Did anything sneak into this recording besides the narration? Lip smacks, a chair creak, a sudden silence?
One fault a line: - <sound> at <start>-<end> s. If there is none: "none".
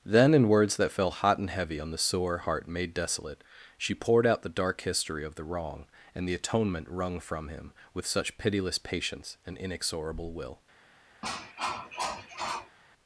- cough at 11.2-12.8 s